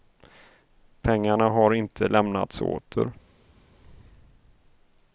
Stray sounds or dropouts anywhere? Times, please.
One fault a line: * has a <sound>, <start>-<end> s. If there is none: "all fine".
all fine